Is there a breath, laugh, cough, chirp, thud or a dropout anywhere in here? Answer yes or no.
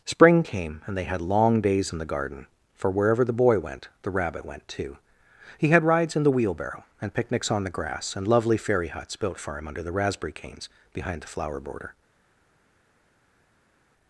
no